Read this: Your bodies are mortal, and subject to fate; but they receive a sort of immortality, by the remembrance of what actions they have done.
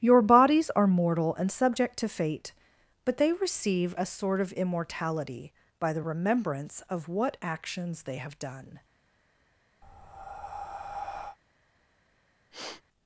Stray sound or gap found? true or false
true